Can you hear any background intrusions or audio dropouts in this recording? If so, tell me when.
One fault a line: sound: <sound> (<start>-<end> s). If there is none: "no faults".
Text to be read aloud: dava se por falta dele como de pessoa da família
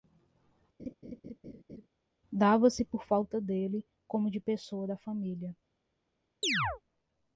sound: laugh (0.8-1.9 s)
sound: chirp (6.4-6.8 s)